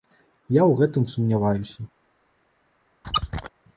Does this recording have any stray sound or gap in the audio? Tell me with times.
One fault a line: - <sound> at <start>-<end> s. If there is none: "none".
- squeak at 3.0-3.5 s